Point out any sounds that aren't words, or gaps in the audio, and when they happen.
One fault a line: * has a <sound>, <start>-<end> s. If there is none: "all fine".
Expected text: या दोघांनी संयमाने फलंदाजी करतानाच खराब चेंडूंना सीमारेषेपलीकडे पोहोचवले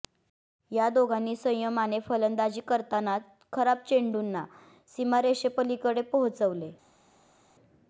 all fine